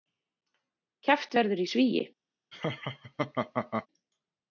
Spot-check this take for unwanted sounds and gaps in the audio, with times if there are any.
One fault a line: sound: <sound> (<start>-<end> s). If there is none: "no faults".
sound: laugh (2.5-3.9 s)